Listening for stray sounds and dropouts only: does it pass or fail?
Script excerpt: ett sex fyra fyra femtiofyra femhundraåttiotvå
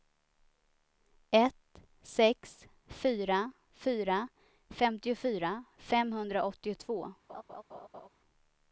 fail